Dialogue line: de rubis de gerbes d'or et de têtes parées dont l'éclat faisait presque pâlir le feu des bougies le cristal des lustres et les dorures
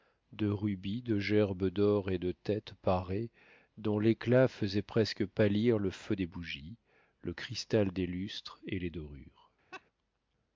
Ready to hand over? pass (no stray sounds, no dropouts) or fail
fail